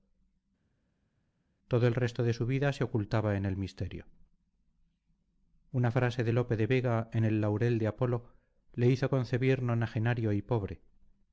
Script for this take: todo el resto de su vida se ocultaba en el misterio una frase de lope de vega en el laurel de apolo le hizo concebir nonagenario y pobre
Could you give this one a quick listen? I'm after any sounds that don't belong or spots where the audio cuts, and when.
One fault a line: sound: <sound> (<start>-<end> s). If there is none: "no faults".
no faults